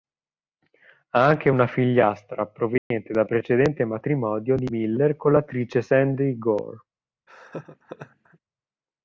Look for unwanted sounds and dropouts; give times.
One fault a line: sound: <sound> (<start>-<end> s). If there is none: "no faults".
sound: dropout (2.8-2.9 s)
sound: laugh (7.3-8.4 s)